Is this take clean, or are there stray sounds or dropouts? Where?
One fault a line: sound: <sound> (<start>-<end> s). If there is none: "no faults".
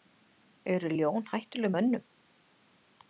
no faults